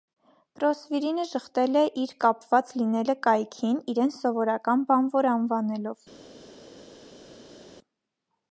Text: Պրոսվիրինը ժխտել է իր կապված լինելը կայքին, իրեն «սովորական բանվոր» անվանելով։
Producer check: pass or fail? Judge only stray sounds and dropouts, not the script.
pass